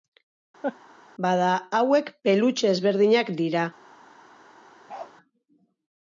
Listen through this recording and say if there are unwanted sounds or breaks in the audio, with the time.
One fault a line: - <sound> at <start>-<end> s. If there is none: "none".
- laugh at 0.6-0.8 s
- bark at 4.9-5.1 s